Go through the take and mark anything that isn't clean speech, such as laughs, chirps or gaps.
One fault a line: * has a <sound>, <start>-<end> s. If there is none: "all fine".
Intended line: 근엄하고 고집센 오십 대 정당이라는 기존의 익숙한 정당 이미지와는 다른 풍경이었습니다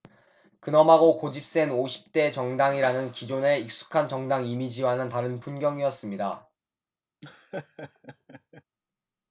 * has a laugh, 7.2-8.6 s